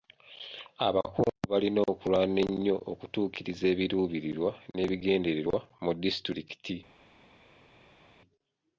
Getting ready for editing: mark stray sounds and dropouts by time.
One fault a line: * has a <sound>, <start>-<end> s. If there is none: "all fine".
all fine